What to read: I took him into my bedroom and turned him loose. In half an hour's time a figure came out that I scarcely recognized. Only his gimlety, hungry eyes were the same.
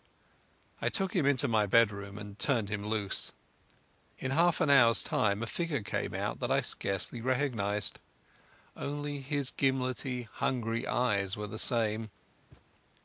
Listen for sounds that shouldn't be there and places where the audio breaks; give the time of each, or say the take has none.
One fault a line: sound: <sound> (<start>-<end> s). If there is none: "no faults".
sound: thud (12.5-12.7 s)